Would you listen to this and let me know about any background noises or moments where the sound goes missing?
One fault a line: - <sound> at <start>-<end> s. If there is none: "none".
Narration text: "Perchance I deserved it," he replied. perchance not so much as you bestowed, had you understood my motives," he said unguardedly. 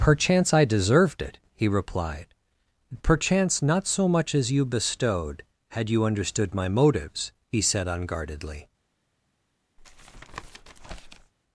- tap at 9.8-11.3 s